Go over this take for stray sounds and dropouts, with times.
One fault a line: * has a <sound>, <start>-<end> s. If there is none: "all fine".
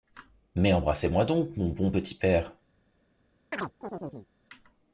* has a chirp, 3.5-4.3 s